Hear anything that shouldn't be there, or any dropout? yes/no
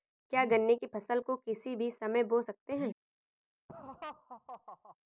yes